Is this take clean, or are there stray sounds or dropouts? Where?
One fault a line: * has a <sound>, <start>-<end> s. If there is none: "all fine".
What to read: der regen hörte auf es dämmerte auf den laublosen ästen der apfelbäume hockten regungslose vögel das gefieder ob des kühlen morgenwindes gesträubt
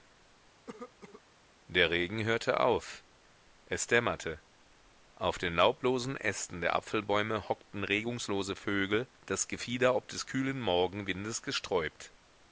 * has a cough, 0.7-1.2 s